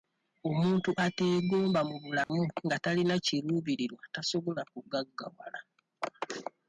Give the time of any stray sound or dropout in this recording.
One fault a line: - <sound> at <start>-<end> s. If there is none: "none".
- dropout at 2.2-2.3 s